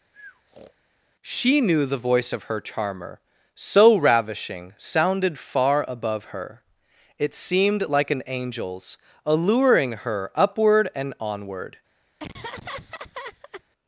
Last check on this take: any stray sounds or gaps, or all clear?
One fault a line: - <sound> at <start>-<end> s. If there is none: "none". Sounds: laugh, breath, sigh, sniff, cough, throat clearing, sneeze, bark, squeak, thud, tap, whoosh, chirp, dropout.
- breath at 0.1-0.7 s
- laugh at 12.2-13.6 s